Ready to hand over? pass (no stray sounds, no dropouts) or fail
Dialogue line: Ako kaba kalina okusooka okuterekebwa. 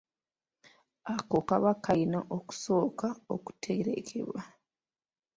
pass